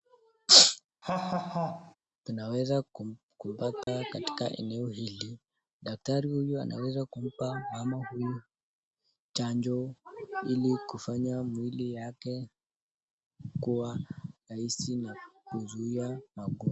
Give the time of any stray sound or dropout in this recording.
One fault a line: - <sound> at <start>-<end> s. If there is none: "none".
- laugh at 1.0-1.9 s
- dropout at 3.8-3.9 s